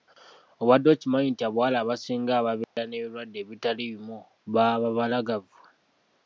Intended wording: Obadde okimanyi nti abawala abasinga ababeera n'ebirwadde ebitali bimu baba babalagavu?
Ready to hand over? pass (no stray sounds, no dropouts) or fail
fail